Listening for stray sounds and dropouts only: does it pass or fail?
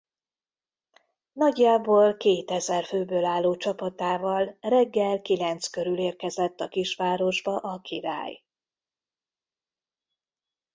pass